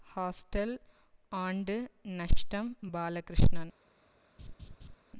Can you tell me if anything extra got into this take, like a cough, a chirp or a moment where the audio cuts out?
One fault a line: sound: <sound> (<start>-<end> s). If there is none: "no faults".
sound: laugh (4.4-5.0 s)